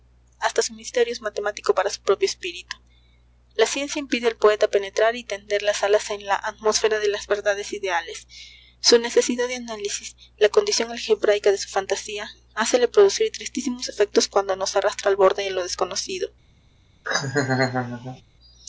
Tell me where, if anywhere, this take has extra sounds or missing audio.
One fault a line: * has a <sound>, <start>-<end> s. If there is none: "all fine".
* has a laugh, 17.0-18.2 s